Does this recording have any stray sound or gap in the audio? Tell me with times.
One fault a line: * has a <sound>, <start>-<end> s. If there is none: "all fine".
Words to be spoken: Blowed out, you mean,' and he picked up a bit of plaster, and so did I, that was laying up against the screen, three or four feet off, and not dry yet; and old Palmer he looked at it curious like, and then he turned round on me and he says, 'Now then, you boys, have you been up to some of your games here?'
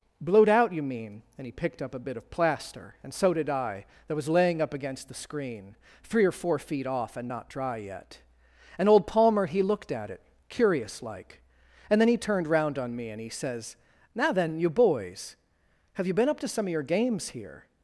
all fine